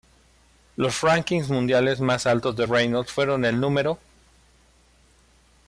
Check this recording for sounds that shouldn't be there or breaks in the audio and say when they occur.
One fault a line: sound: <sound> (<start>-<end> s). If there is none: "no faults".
no faults